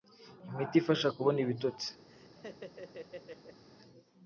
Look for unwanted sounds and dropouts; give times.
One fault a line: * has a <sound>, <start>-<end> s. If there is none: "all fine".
* has a laugh, 2.1-3.6 s